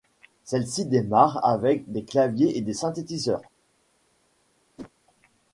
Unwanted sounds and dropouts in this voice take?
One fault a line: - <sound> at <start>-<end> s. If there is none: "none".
- whoosh at 4.8-4.9 s